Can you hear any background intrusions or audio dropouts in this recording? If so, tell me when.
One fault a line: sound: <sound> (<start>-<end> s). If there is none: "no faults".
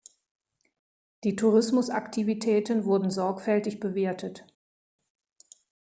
no faults